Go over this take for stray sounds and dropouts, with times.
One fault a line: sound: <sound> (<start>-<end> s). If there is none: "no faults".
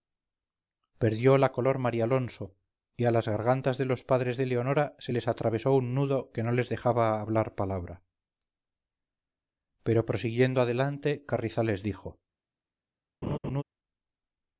sound: laugh (13.2-13.6 s)